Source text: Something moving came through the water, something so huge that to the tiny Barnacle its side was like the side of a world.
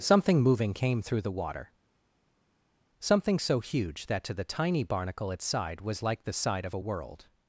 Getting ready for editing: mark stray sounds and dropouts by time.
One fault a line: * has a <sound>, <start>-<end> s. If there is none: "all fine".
all fine